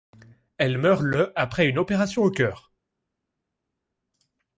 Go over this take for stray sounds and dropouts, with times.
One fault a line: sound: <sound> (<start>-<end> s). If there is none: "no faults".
no faults